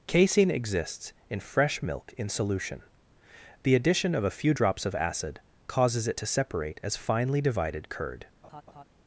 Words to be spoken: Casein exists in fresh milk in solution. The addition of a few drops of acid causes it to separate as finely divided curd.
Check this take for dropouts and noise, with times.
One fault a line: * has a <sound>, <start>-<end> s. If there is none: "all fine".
* has a laugh, 8.4-8.8 s